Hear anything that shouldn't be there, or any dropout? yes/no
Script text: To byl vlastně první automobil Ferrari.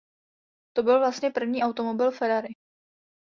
no